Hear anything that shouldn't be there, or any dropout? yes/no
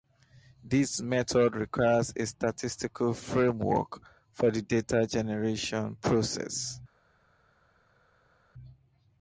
no